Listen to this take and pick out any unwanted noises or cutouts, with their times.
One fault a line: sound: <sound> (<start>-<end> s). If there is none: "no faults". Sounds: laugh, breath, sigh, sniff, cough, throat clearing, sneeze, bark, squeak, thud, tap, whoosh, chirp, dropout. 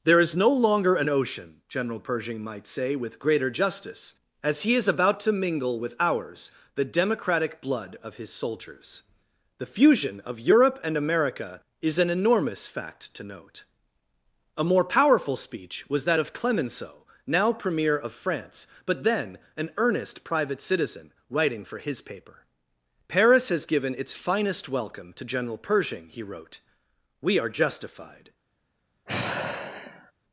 sound: sigh (29.1-30.1 s)